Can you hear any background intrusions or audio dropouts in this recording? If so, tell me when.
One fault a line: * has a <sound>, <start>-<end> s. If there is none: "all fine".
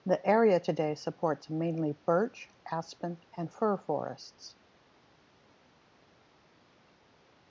all fine